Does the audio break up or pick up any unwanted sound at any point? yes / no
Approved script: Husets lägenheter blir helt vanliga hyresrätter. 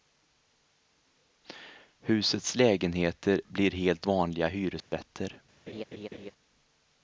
yes